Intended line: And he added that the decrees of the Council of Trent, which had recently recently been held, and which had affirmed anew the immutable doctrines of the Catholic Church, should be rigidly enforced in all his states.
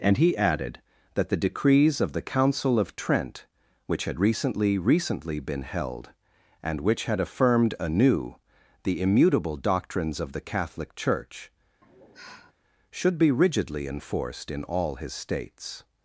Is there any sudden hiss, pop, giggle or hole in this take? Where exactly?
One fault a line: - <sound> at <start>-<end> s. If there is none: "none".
- sigh at 11.8-12.5 s